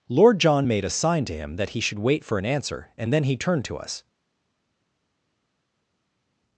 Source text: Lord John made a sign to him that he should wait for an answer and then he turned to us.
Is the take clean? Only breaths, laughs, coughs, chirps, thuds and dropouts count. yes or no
yes